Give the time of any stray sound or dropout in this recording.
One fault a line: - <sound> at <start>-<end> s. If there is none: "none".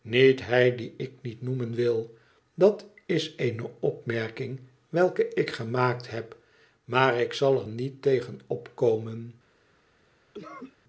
- cough at 10.3-10.8 s